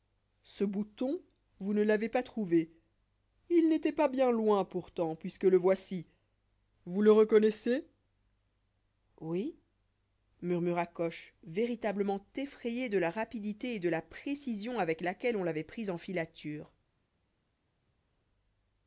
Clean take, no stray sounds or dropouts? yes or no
yes